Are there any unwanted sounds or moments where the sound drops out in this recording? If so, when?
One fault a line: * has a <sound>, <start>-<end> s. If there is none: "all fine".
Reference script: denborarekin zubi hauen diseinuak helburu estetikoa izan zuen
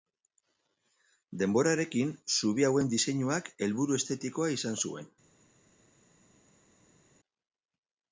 all fine